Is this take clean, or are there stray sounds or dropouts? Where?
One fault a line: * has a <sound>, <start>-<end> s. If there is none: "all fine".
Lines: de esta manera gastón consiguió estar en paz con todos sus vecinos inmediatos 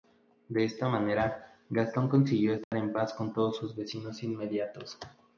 * has a dropout, 2.6-2.7 s